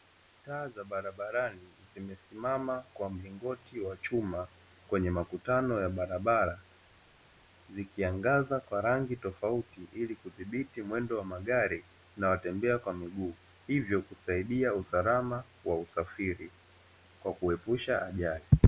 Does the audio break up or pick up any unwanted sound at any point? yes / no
no